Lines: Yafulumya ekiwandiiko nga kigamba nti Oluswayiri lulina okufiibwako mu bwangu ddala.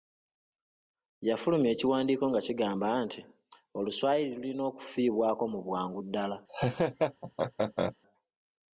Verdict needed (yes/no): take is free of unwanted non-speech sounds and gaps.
no